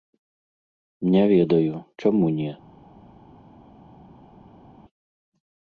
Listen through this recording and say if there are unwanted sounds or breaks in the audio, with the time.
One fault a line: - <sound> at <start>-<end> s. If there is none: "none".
none